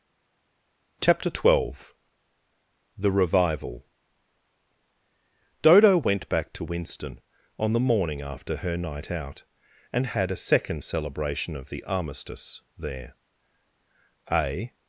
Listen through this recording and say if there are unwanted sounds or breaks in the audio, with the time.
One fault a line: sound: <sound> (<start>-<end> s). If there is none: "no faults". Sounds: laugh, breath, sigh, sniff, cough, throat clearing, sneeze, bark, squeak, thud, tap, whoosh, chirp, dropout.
no faults